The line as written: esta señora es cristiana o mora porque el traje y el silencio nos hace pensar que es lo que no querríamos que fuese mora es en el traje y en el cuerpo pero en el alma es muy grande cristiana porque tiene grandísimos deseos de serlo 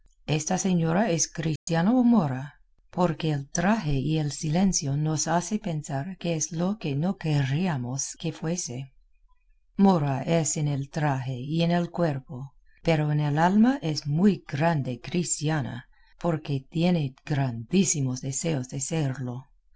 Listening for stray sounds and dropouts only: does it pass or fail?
fail